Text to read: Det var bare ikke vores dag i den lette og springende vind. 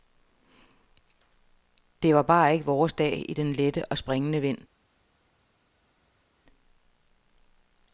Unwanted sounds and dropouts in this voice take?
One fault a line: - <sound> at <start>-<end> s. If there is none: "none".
none